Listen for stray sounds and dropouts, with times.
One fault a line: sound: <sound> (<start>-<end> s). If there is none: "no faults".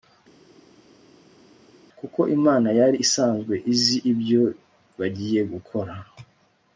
no faults